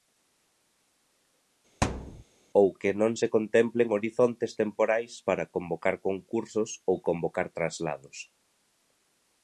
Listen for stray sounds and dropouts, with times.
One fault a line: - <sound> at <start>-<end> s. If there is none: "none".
- thud at 1.8-2.2 s